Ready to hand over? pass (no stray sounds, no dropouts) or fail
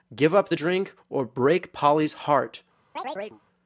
fail